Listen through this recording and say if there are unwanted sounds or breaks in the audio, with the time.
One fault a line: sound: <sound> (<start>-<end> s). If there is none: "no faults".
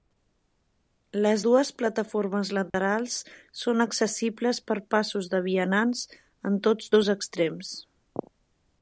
sound: dropout (2.7-2.7 s)